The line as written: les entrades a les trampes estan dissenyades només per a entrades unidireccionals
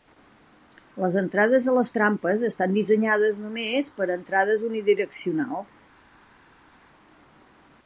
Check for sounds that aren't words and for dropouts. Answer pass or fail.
pass